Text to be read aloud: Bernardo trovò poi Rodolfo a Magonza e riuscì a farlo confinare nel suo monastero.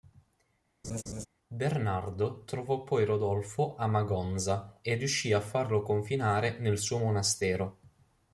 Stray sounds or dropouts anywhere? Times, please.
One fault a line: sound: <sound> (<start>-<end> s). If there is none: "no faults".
sound: laugh (0.8-1.3 s)